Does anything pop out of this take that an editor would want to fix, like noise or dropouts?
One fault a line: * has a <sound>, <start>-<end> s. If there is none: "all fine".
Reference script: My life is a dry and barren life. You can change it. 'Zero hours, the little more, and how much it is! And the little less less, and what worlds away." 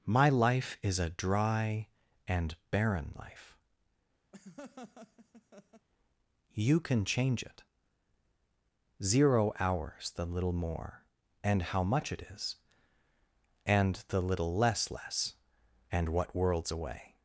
* has a laugh, 4.3-5.9 s